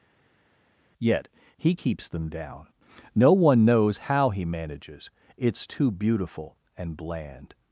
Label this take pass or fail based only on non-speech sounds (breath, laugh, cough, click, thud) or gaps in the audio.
pass